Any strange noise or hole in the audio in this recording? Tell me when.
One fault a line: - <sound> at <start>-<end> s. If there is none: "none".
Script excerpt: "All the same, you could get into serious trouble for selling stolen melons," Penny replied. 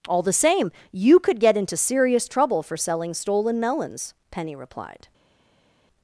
none